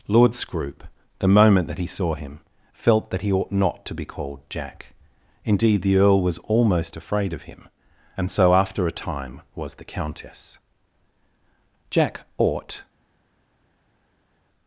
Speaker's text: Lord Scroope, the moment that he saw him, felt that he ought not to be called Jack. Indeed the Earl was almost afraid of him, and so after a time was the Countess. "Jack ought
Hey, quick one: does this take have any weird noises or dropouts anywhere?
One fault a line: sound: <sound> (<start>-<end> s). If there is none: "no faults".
no faults